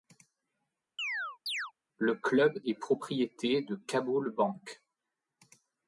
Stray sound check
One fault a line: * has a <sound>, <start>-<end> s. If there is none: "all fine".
* has a chirp, 1.0-1.7 s